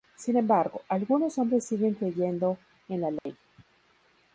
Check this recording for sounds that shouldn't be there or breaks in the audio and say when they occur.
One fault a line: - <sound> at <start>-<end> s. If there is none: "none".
- dropout at 3.2-3.3 s